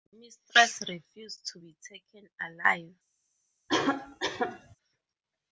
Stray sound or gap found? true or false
true